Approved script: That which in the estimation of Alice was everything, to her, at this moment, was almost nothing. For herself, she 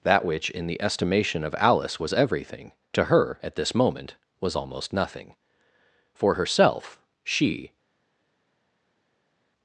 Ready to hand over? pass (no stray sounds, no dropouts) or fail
pass